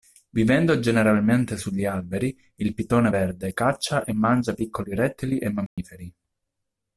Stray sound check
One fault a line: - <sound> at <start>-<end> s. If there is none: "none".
- dropout at 5.7-5.8 s